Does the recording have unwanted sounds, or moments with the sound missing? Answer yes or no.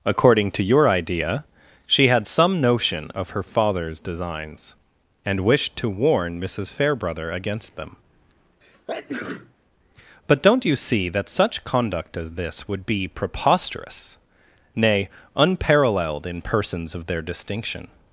yes